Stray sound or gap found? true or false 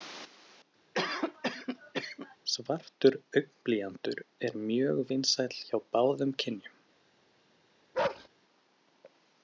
true